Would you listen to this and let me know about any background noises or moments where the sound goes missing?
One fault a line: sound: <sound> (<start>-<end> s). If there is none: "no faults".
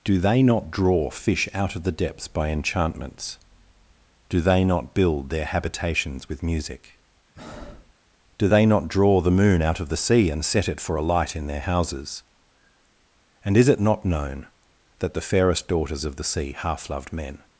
sound: breath (7.4-7.9 s)